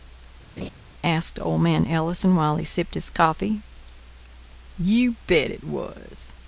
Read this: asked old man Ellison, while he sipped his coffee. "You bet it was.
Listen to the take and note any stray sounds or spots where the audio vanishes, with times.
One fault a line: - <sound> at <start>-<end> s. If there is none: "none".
- laugh at 0.6-0.7 s